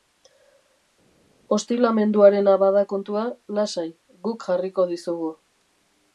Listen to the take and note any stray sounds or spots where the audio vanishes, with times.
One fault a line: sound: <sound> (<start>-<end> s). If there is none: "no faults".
no faults